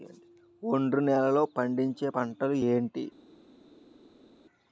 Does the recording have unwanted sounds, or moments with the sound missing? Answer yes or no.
no